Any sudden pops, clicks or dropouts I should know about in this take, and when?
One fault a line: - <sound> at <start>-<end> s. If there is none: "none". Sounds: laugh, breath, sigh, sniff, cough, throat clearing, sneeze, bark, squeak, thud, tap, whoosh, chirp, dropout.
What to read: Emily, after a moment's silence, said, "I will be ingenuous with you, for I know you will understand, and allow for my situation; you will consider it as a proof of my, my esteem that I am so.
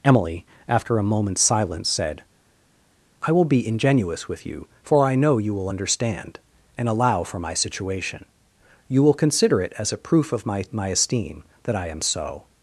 none